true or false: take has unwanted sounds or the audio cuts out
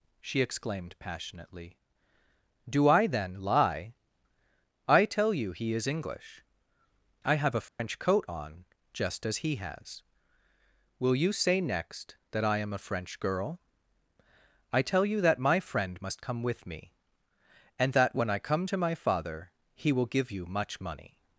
true